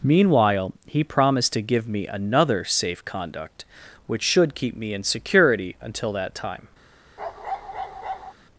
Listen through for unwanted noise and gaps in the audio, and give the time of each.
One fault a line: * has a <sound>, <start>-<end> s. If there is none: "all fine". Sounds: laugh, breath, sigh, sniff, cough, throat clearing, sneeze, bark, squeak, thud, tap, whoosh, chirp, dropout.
* has a bark, 7.2-8.3 s